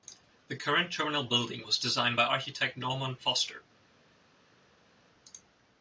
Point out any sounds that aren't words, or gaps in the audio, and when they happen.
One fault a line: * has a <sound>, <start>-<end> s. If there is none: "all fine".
all fine